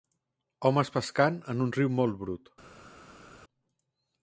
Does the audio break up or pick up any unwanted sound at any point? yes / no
no